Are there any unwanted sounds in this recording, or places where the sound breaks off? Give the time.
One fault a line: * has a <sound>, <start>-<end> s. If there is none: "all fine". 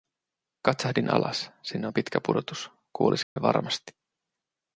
* has a dropout, 3.2-3.4 s